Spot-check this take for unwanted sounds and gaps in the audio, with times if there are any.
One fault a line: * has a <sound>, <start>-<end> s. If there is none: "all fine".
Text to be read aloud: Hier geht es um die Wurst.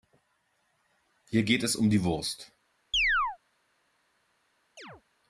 * has a chirp, 2.9-3.4 s
* has a chirp, 4.8-5.0 s